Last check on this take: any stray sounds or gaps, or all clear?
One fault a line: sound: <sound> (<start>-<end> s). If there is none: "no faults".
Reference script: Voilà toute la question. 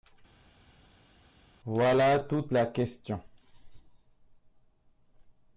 no faults